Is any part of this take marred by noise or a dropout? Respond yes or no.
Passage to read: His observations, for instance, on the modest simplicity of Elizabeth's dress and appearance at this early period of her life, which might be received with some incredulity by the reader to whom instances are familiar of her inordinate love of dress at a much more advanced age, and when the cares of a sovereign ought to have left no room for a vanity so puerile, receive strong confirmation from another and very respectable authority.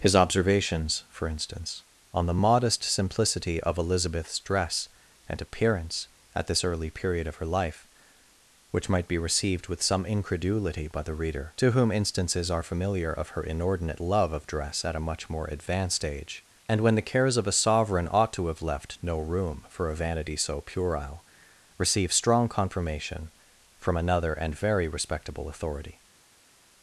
no